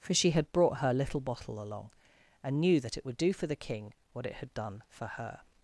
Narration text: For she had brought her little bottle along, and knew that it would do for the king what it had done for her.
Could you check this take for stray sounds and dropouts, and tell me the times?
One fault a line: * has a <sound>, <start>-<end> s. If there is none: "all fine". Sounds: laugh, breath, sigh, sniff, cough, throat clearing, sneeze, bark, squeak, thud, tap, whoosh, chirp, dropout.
all fine